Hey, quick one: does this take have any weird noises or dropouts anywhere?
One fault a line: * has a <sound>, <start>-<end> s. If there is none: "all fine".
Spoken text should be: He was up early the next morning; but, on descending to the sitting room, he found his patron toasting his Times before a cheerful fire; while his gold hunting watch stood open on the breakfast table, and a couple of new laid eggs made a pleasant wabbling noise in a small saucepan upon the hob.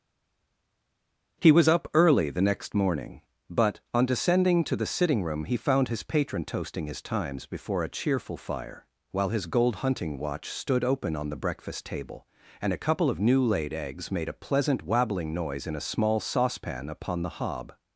all fine